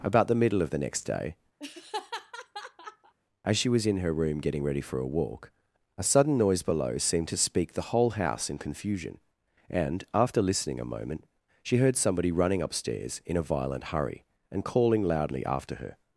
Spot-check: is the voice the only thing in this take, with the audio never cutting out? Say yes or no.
no